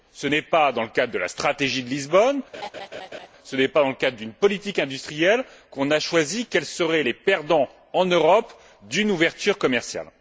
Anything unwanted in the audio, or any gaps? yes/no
yes